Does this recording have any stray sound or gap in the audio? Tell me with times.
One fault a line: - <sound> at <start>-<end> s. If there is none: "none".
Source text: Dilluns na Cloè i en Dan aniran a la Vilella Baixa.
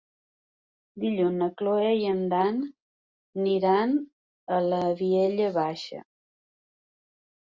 none